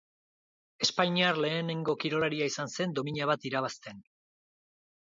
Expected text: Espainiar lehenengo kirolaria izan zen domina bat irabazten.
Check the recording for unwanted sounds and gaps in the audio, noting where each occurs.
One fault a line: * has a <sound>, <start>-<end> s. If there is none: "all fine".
all fine